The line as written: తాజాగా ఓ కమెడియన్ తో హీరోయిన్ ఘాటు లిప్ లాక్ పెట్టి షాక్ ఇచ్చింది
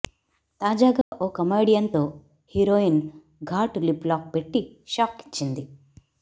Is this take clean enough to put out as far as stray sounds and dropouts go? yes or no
no